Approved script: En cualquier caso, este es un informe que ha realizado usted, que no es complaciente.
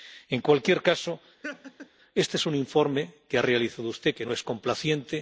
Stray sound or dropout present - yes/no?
yes